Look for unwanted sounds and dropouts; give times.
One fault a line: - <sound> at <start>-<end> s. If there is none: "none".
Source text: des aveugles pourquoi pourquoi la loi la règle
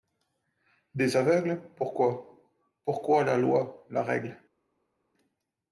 none